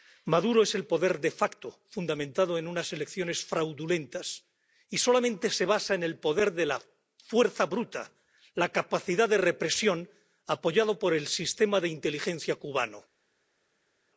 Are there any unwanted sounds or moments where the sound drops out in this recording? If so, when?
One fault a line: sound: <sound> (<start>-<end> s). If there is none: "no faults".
no faults